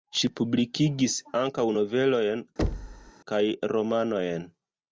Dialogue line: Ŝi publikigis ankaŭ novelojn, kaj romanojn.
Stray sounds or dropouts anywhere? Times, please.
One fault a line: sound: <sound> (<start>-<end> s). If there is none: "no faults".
sound: thud (2.6-3.1 s)